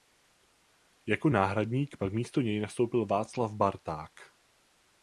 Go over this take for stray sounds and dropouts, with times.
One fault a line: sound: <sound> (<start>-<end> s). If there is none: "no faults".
no faults